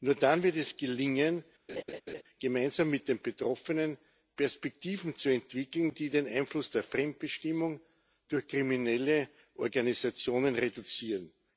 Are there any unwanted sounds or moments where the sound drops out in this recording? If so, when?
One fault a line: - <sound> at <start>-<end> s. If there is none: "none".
- laugh at 1.7-2.2 s